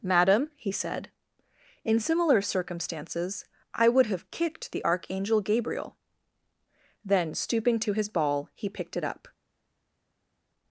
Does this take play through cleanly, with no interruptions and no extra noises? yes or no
yes